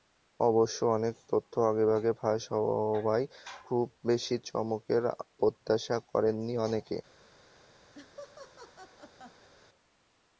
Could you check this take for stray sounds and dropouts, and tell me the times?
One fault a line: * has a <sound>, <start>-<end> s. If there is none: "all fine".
* has a laugh, 7.9-9.5 s